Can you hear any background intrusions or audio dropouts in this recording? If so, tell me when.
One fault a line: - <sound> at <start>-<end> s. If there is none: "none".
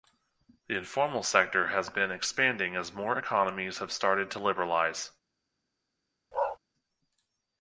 - bark at 6.3-6.6 s